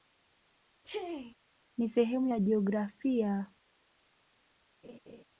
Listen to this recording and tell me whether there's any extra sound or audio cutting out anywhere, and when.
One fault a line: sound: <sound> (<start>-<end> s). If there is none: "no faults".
sound: sneeze (0.8-1.3 s)
sound: laugh (4.8-5.2 s)